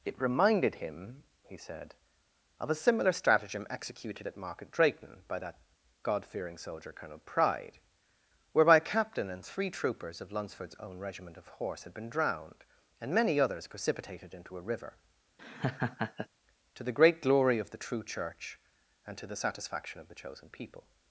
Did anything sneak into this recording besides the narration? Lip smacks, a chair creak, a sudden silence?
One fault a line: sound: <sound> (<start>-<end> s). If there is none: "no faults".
sound: laugh (15.4-16.3 s)